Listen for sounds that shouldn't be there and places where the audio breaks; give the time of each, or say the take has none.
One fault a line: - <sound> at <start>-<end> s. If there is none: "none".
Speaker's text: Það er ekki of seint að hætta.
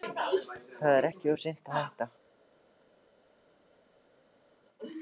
none